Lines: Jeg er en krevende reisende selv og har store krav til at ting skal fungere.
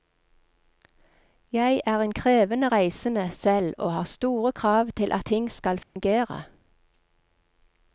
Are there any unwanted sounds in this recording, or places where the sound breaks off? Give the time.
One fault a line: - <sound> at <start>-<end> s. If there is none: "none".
- dropout at 5.8-6.0 s